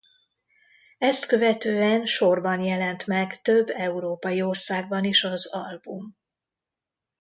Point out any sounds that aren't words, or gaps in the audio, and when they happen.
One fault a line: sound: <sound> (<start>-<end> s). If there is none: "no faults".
no faults